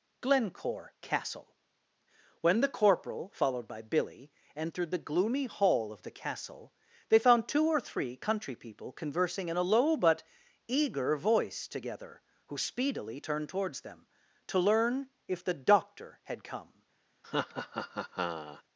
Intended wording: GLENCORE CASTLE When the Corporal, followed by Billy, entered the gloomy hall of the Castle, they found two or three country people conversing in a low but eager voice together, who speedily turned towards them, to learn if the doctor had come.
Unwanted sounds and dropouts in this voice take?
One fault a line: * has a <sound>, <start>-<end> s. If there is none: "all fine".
* has a laugh, 17.2-18.6 s